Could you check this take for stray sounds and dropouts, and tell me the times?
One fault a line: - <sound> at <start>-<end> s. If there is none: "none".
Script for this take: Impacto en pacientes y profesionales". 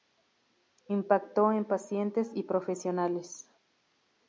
none